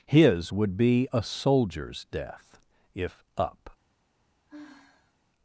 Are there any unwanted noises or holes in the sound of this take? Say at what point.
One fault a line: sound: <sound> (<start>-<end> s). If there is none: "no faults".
sound: sigh (4.5-5.1 s)